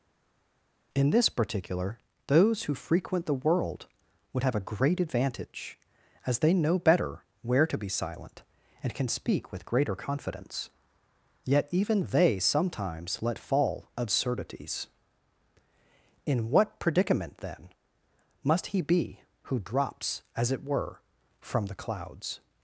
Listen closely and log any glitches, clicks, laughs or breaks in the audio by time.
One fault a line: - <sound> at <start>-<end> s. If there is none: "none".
none